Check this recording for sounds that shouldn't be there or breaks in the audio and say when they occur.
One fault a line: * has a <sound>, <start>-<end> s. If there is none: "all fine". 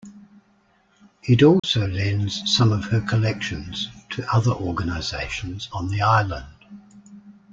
* has a dropout, 1.6-1.6 s